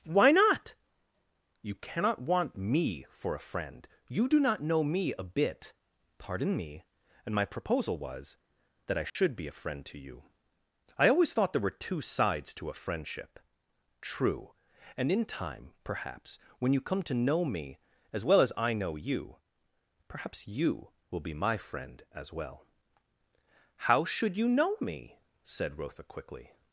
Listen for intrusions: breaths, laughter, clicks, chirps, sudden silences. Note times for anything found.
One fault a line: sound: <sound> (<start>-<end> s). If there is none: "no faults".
sound: dropout (9.1-9.2 s)